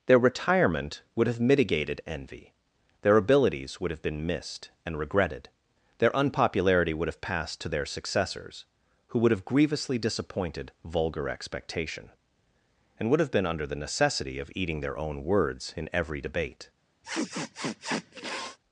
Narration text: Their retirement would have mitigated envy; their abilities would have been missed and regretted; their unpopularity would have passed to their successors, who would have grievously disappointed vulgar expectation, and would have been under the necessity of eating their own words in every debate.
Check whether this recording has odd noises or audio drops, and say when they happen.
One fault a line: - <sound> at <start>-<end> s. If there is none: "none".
- sniff at 17.0-18.6 s